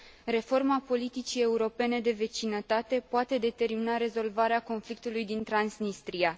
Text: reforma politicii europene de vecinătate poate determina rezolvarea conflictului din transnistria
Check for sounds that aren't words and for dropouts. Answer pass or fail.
pass